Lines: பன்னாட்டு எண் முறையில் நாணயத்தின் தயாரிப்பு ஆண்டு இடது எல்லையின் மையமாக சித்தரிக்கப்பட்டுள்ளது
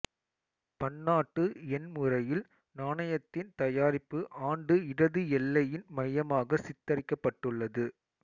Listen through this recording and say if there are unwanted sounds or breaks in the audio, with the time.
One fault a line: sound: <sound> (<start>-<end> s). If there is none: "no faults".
no faults